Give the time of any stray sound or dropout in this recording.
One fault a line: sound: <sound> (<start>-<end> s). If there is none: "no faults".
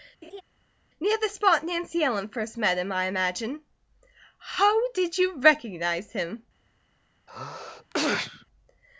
sound: laugh (0.2-0.4 s)
sound: sneeze (7.3-8.5 s)